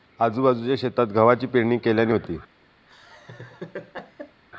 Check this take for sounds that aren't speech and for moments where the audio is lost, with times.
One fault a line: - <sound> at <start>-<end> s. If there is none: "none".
- laugh at 2.9-4.4 s